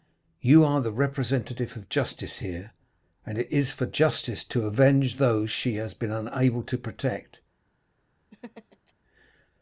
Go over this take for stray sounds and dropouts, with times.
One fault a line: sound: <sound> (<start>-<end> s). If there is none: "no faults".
sound: laugh (8.3-8.9 s)